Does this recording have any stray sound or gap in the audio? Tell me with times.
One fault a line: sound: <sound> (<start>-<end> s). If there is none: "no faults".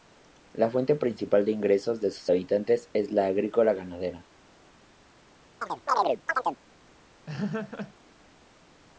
sound: chirp (5.6-6.6 s)
sound: laugh (7.3-7.9 s)